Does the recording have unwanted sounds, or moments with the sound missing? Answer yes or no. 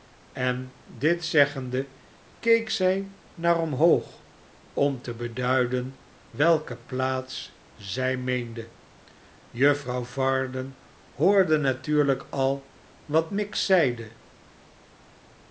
no